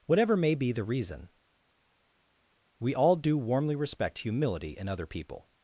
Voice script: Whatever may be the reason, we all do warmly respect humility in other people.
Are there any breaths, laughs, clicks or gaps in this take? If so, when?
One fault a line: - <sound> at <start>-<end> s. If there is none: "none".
none